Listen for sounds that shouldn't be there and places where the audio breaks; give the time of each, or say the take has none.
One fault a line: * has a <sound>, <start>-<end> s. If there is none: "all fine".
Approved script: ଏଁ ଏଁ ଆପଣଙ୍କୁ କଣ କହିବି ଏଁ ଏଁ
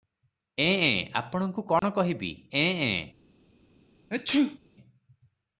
* has a dropout, 1.8-1.8 s
* has a sneeze, 4.1-4.6 s